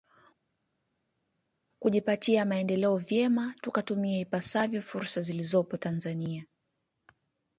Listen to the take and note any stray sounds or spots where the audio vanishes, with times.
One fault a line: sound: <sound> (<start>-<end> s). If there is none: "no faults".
no faults